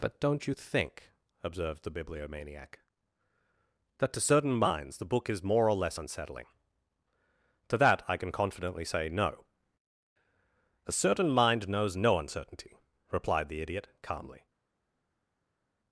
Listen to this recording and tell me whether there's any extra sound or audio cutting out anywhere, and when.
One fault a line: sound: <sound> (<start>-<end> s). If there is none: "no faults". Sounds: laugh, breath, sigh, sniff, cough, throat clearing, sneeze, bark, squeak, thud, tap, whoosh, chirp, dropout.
no faults